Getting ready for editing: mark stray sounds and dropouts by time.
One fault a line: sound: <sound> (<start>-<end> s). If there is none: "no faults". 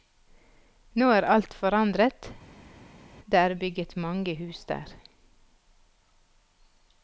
no faults